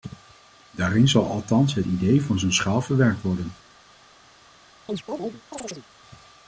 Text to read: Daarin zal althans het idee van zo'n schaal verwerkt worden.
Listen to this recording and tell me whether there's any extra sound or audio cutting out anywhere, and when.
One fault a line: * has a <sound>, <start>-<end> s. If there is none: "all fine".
* has a chirp, 4.9-5.9 s